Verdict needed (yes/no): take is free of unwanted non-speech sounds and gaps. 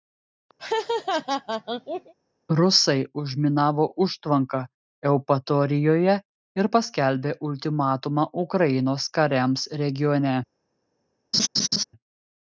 no